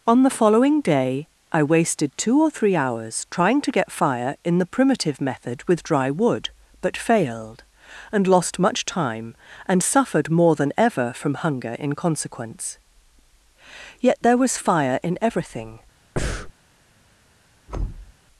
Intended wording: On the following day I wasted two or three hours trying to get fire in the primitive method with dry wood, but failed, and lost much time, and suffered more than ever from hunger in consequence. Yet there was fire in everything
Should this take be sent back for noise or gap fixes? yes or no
yes